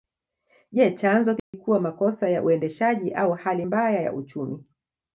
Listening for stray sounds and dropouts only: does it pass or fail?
fail